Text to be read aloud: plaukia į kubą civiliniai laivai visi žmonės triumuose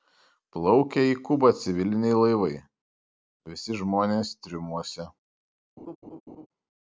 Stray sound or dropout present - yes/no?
yes